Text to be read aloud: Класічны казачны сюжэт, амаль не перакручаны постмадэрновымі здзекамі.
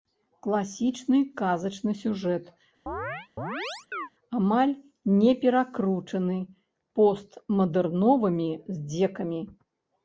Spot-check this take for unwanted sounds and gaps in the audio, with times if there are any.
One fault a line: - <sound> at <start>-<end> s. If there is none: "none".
- chirp at 2.9-4.1 s